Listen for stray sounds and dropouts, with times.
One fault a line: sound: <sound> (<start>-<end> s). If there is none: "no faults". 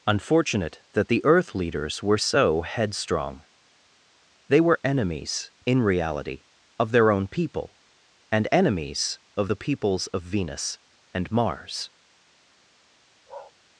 sound: bark (13.3-13.5 s)